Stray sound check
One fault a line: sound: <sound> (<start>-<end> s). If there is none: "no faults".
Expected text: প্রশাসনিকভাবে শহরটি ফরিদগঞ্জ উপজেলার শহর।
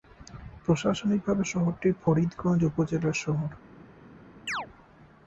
sound: chirp (4.5-4.7 s)